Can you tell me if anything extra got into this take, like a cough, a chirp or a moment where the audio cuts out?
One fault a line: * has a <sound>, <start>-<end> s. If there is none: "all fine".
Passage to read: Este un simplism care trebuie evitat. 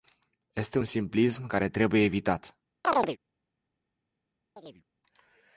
* has a chirp, 2.8-3.2 s
* has a chirp, 4.6-4.8 s